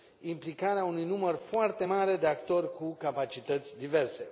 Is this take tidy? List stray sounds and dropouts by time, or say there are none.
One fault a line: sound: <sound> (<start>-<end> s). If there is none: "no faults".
no faults